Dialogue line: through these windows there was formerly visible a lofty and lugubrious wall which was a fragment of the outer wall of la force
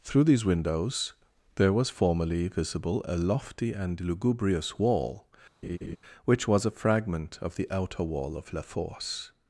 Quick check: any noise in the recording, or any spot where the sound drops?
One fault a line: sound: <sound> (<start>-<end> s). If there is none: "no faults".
sound: laugh (5.6-6.0 s)